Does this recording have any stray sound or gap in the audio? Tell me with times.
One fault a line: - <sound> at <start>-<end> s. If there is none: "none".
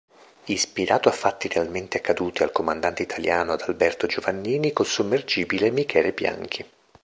none